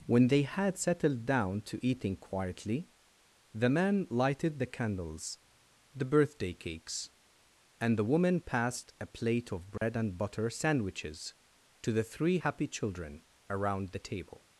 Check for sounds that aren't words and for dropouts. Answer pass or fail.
fail